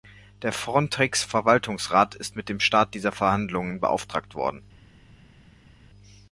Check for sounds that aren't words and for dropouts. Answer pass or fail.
pass